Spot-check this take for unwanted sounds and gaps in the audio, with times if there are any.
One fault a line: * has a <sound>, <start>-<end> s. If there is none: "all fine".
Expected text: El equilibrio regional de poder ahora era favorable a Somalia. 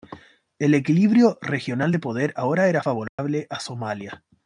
* has a dropout, 3.1-3.2 s